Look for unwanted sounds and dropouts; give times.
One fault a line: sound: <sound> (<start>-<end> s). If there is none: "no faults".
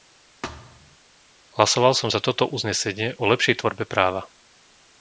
sound: thud (0.4-1.0 s)